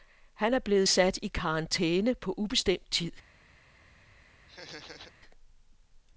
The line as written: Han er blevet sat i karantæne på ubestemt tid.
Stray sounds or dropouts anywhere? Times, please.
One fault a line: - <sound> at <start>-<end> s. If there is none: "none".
- laugh at 4.5-5.1 s